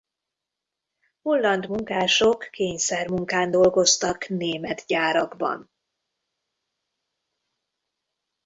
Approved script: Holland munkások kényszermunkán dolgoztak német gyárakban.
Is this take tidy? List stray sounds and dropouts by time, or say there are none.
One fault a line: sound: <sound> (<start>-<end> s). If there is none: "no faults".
no faults